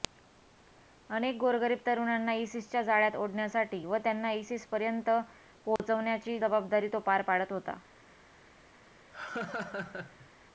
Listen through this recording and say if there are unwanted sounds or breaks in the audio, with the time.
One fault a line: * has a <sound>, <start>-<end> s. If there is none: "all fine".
* has a dropout, 5.8-5.8 s
* has a laugh, 9.1-10.3 s